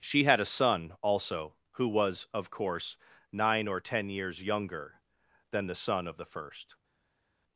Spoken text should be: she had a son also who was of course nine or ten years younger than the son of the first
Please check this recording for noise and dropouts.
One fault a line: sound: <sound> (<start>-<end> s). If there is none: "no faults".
no faults